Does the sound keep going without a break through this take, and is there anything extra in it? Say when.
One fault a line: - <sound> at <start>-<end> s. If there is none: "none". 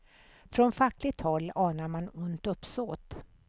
none